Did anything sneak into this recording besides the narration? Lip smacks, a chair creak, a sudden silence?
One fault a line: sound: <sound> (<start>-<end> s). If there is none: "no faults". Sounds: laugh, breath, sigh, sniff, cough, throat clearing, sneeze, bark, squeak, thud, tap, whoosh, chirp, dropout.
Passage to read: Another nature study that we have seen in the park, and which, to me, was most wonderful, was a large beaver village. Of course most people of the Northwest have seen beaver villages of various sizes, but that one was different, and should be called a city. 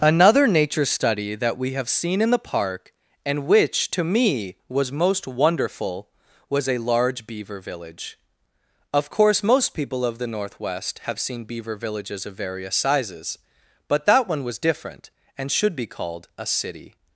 no faults